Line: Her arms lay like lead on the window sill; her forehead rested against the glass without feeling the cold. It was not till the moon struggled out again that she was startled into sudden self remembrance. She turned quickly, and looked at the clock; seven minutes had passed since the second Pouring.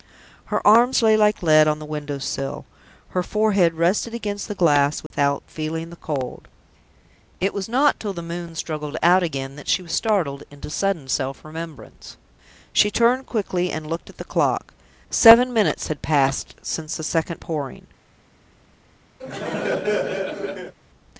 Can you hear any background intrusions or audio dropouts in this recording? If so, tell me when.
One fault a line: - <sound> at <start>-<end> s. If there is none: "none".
- dropout at 5.1-5.1 s
- laugh at 19.2-20.7 s